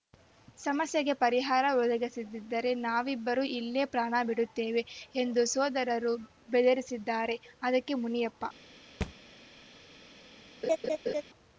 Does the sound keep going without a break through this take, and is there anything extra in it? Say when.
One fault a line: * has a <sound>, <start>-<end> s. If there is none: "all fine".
* has a thud, 9.0-9.1 s
* has a laugh, 10.6-11.2 s